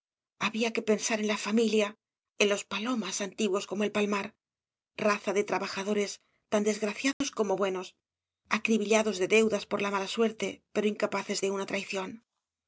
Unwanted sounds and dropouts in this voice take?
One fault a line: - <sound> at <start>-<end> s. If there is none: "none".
- dropout at 7.1-7.2 s